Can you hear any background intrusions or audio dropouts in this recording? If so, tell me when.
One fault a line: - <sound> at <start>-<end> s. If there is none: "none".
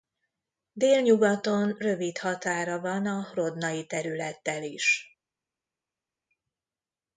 none